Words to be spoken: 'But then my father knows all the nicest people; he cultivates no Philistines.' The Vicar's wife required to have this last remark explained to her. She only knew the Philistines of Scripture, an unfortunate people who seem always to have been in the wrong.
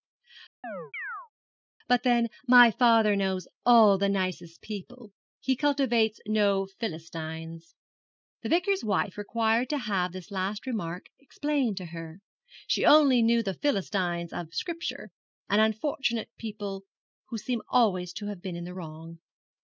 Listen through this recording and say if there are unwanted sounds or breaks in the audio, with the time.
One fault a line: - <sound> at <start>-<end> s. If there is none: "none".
- chirp at 0.6-1.3 s